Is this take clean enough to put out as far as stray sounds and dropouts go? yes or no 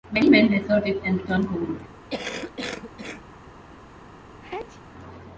no